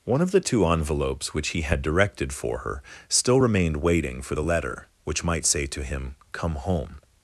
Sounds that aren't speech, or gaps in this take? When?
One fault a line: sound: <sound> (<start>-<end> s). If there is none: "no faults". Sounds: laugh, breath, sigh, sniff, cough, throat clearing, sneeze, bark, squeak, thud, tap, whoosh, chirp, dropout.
no faults